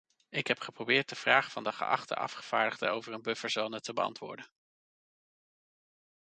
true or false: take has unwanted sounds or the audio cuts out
false